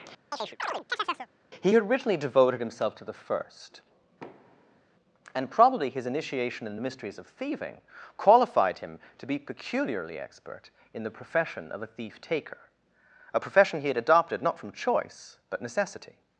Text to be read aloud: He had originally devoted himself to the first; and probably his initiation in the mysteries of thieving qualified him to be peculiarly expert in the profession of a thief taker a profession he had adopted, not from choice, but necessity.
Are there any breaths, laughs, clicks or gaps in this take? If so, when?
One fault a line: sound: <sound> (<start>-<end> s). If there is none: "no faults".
sound: chirp (0.3-1.3 s)
sound: thud (4.2-4.8 s)